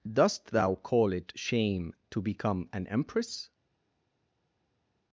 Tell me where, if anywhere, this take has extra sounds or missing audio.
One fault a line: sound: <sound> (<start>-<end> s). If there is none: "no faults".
no faults